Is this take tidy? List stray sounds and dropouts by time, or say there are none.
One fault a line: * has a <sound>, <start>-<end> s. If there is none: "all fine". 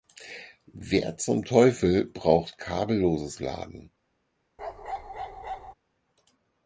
* has a bark, 4.6-5.7 s